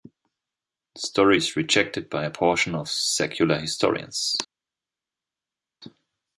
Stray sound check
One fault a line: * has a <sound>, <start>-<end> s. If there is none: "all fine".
all fine